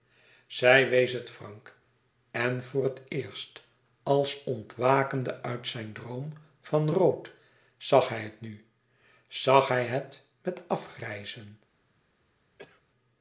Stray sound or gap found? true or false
true